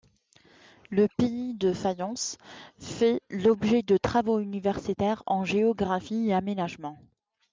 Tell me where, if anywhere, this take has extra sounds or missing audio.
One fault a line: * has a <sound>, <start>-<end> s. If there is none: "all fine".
all fine